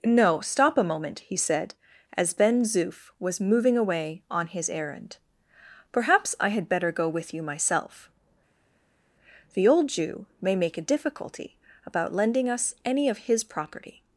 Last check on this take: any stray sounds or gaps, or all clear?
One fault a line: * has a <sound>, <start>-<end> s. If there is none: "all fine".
all fine